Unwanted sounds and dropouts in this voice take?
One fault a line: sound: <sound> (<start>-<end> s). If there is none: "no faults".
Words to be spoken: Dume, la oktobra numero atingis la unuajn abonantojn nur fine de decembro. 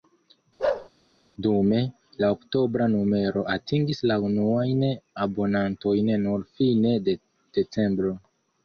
sound: bark (0.6-0.9 s)